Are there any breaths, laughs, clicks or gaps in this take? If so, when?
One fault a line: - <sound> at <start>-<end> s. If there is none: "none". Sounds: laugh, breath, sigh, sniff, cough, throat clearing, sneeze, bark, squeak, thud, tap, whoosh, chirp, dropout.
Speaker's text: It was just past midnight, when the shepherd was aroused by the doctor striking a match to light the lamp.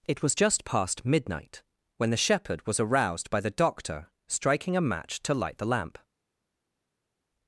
none